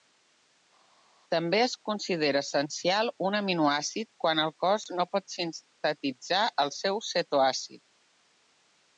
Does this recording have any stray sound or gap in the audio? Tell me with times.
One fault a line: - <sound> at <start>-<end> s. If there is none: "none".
none